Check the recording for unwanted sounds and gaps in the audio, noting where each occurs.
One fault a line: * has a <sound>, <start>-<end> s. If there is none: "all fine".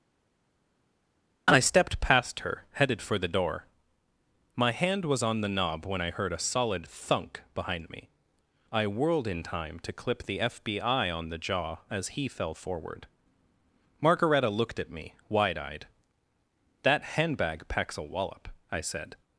all fine